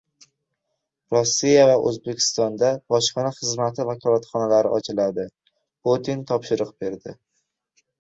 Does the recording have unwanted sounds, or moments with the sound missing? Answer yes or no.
no